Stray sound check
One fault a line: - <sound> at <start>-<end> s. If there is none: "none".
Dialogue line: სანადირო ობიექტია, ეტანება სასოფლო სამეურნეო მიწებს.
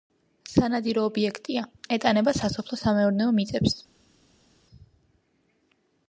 none